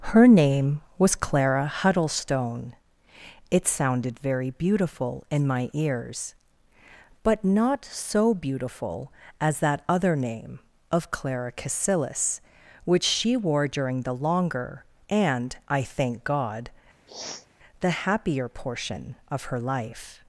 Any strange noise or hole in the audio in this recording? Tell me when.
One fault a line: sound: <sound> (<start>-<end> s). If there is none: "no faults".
sound: sniff (17.1-17.5 s)